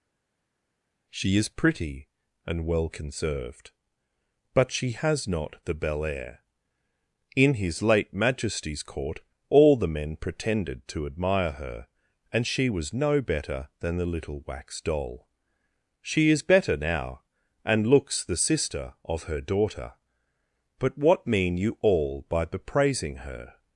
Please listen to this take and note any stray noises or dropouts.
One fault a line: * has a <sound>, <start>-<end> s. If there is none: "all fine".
all fine